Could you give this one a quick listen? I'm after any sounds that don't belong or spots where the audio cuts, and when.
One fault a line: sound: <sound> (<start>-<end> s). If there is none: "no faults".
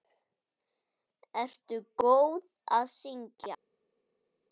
no faults